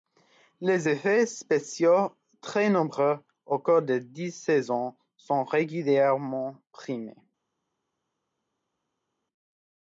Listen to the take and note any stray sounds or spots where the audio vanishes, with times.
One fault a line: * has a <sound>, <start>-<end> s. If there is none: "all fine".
all fine